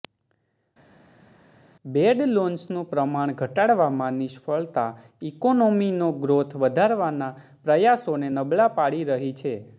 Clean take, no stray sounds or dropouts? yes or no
yes